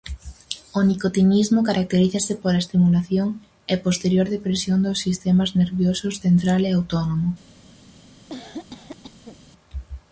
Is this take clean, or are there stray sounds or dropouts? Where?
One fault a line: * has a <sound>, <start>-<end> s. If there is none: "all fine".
* has a cough, 8.3-9.4 s